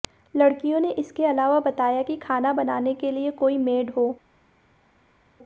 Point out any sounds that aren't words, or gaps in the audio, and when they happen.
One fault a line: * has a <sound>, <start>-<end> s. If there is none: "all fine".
all fine